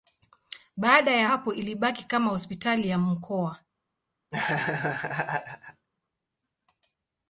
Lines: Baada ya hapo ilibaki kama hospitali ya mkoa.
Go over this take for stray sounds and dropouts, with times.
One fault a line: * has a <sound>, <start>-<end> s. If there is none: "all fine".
* has a laugh, 4.3-5.9 s